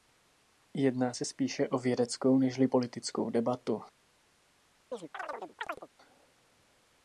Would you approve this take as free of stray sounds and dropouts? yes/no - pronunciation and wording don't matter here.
no